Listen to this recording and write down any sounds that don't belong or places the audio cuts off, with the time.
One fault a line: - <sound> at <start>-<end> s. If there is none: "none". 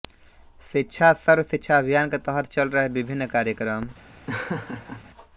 - laugh at 4.3-5.0 s